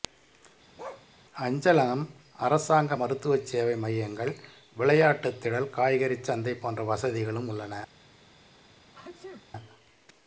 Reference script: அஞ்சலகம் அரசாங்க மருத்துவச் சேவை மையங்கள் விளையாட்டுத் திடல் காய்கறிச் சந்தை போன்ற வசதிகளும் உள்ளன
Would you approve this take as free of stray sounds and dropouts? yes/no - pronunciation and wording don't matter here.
no